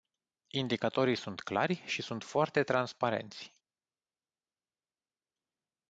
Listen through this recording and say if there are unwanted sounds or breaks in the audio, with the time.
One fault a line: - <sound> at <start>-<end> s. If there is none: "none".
none